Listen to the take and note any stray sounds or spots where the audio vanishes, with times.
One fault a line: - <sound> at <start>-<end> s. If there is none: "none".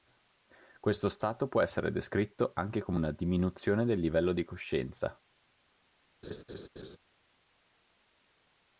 - laugh at 6.2-7.0 s